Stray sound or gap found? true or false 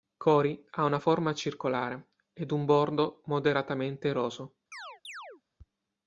true